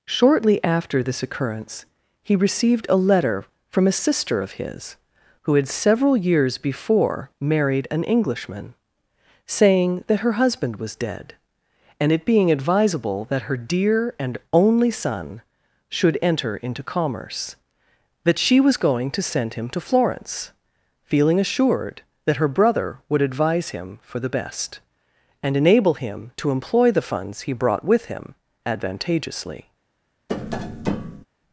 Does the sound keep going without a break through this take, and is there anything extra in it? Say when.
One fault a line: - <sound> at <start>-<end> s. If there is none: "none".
- tap at 30.3-31.3 s